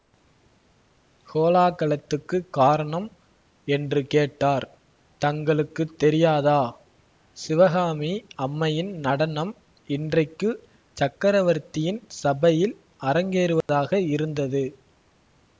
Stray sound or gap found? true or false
true